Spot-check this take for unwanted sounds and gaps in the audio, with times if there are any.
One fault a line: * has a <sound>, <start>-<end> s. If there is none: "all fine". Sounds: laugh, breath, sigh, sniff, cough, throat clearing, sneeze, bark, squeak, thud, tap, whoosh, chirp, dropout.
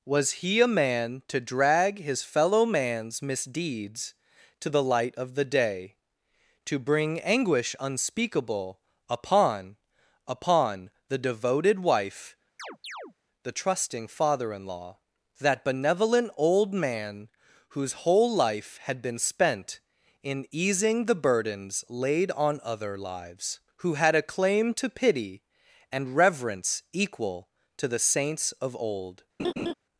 * has a chirp, 12.6-13.1 s
* has a laugh, 29.4-29.7 s